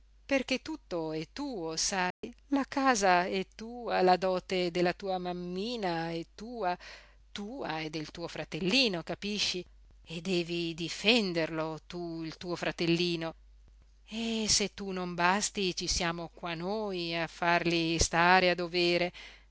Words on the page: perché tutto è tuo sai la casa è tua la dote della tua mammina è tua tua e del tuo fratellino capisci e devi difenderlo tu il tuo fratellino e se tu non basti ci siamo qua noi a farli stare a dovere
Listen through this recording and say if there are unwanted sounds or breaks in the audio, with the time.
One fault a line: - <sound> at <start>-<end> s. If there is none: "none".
- dropout at 2.1-2.2 s